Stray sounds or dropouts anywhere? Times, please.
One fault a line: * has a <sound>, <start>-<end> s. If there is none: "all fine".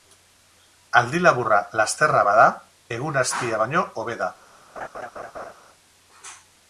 * has a laugh, 4.8-5.5 s